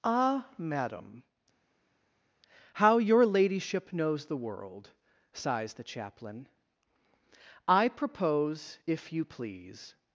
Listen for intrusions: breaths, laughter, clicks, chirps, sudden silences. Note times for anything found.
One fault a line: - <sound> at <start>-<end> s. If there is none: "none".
none